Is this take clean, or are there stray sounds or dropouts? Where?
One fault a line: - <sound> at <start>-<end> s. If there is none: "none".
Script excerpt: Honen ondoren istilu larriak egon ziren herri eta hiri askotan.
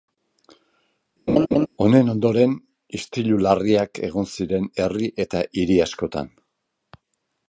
- laugh at 1.3-1.7 s